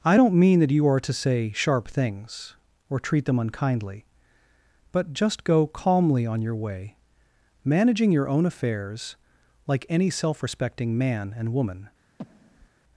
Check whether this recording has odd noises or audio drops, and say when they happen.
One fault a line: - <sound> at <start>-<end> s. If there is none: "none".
- breath at 12.2-12.7 s